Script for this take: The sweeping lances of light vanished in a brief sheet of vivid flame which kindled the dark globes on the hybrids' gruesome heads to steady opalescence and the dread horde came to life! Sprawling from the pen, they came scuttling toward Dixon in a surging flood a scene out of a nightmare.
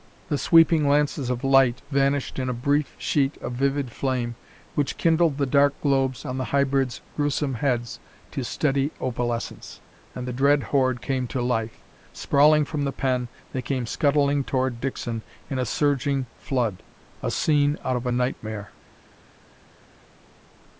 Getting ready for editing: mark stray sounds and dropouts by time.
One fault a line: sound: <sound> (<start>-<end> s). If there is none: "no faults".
no faults